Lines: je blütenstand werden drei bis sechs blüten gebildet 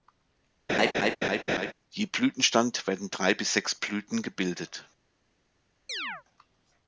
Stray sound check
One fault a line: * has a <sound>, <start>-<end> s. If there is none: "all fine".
* has a laugh, 0.7-1.7 s
* has a chirp, 5.9-6.2 s